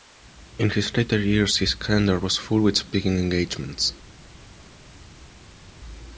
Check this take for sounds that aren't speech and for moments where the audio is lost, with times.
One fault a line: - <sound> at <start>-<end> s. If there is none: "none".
none